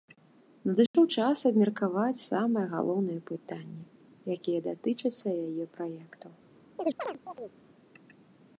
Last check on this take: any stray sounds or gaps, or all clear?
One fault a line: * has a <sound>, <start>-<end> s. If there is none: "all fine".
* has a dropout, 0.9-0.9 s
* has a chirp, 6.8-7.6 s